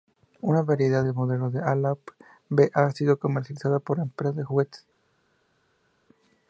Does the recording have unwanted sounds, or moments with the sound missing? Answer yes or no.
no